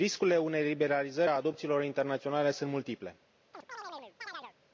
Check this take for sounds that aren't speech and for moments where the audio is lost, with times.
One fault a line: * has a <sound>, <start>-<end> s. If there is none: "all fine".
* has a chirp, 3.5-4.5 s